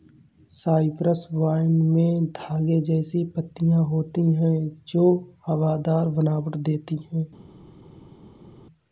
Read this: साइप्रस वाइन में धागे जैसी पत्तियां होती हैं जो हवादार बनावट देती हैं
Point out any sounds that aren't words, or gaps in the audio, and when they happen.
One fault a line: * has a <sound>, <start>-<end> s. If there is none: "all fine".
all fine